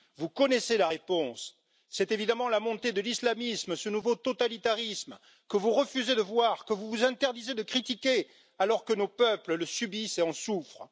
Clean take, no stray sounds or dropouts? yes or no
yes